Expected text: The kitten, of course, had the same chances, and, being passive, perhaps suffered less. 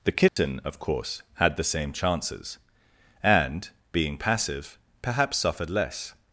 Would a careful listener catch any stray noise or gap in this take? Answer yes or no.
yes